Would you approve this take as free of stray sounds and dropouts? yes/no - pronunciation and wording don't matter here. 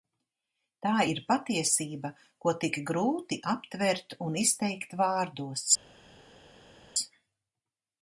yes